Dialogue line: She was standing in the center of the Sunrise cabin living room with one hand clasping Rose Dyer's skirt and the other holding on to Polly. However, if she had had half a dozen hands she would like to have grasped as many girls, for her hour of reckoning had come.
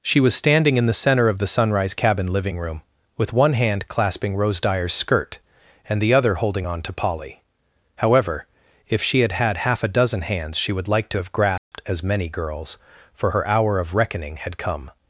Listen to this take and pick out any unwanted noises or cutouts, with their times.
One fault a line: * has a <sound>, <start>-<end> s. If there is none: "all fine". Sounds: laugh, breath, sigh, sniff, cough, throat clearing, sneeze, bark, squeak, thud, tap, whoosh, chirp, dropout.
* has a dropout, 11.6-11.7 s